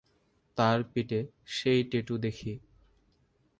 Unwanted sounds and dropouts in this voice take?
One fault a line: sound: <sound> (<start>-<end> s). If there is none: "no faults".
no faults